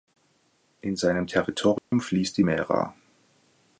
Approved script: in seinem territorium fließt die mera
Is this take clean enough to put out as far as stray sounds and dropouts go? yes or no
no